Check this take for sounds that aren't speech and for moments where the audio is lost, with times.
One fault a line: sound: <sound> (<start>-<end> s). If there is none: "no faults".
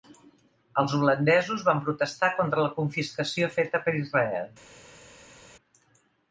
no faults